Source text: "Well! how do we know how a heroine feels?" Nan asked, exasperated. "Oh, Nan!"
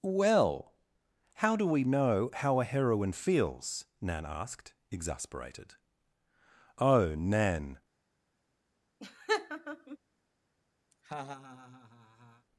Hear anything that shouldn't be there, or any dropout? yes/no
yes